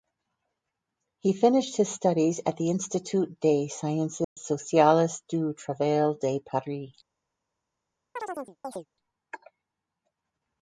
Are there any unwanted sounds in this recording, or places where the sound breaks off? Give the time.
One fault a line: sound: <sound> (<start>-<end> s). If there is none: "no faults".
sound: dropout (4.2-4.4 s)
sound: chirp (8.2-8.9 s)